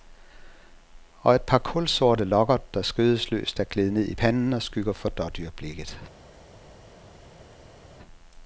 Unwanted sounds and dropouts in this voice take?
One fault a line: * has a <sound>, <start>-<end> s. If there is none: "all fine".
all fine